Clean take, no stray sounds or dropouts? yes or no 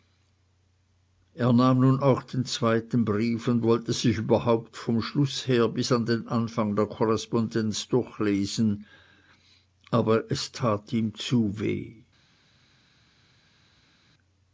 yes